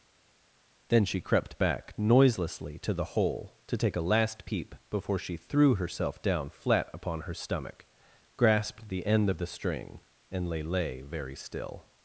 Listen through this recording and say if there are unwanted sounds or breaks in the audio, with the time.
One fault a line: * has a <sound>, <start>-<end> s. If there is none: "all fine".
all fine